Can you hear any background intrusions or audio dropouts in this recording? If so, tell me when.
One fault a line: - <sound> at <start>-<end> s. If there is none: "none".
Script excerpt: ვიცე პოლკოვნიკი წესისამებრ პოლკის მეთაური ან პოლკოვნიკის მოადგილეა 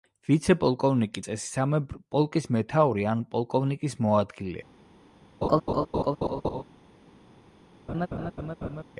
- laugh at 5.4-6.6 s
- laugh at 7.9-8.8 s